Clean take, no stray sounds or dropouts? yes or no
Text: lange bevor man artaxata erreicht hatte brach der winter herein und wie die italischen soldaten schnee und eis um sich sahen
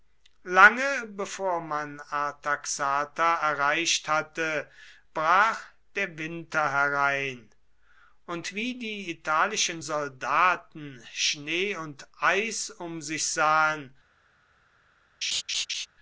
no